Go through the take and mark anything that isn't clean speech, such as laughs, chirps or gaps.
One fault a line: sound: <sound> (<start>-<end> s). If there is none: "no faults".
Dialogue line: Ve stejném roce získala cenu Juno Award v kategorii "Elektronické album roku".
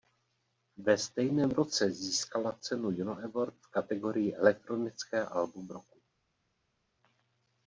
no faults